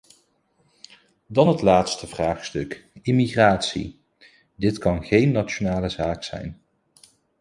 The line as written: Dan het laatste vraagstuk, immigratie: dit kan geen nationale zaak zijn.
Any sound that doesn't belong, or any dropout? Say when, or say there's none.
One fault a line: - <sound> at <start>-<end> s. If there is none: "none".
none